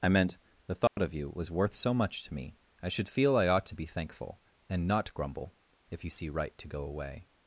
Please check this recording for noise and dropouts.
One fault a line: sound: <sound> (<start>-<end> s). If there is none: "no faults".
sound: dropout (0.9-1.0 s)